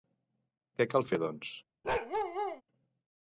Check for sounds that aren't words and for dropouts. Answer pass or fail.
fail